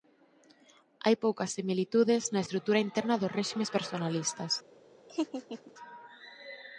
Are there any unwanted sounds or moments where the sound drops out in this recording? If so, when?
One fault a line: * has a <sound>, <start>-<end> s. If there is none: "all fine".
* has a laugh, 5.1-5.7 s